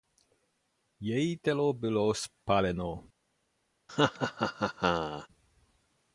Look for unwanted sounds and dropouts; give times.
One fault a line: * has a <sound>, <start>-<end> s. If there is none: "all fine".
* has a laugh, 3.9-5.3 s